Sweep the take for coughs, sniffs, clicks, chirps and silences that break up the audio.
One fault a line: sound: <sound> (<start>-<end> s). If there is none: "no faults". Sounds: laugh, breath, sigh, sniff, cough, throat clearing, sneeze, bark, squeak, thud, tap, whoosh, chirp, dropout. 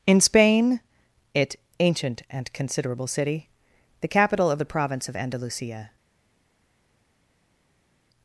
no faults